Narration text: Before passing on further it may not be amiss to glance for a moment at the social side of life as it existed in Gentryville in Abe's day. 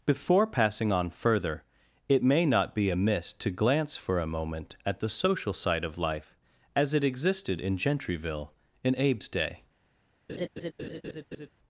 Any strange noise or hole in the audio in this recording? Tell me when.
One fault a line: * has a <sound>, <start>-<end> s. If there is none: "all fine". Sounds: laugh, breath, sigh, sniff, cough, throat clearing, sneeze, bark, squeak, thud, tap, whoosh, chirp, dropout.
* has a laugh, 10.3-11.5 s